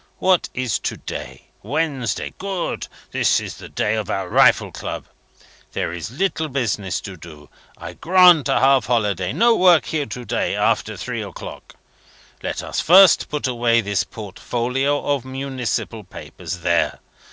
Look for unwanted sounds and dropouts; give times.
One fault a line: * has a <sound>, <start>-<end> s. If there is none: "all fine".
all fine